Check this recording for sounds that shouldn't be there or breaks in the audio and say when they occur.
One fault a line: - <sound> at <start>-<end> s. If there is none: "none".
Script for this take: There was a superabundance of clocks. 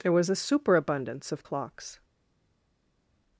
none